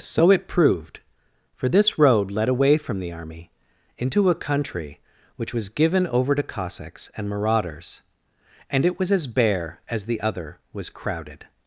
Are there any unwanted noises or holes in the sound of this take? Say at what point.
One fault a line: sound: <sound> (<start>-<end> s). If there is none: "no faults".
no faults